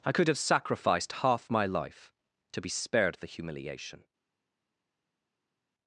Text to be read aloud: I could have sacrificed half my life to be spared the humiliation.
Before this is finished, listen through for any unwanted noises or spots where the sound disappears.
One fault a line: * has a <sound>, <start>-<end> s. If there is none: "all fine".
all fine